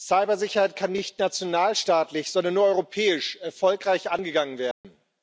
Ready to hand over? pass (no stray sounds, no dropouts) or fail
fail